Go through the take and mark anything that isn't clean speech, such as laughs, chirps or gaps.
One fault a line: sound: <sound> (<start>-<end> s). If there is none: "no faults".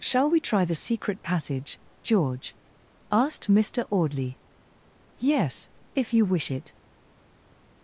no faults